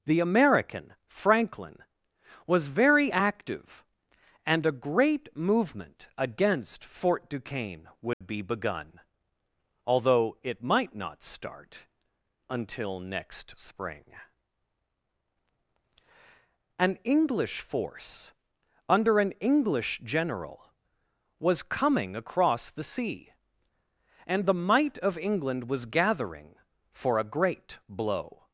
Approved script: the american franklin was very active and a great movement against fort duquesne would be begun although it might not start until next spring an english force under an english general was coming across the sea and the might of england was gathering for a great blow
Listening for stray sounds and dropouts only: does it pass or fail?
fail